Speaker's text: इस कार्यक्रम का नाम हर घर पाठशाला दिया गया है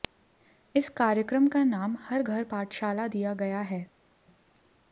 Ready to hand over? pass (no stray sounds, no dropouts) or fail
pass